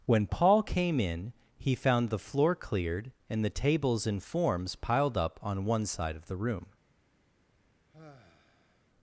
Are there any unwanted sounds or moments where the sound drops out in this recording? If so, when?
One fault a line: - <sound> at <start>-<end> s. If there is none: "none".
- sigh at 7.9-8.9 s